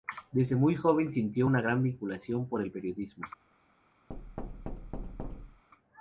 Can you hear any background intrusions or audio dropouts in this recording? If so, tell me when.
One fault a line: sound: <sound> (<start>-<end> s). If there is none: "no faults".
sound: thud (4.1-5.6 s)